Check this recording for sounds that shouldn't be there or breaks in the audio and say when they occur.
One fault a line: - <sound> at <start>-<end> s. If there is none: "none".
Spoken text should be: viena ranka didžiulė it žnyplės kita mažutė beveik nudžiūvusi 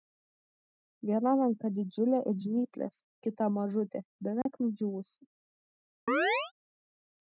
- dropout at 4.4-4.5 s
- chirp at 6.1-6.5 s